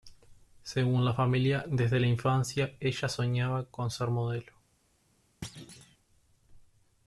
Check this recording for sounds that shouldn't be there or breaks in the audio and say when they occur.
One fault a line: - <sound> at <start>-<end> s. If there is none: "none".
- thud at 5.4-6.0 s